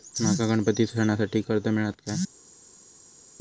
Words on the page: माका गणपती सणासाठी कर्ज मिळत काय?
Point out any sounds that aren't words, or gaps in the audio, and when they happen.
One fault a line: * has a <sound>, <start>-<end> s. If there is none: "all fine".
all fine